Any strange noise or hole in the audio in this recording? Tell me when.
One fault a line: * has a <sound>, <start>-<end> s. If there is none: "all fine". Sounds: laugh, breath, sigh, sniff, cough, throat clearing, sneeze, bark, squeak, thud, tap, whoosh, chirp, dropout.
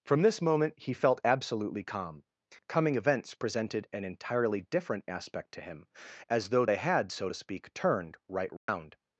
* has a dropout, 8.6-8.7 s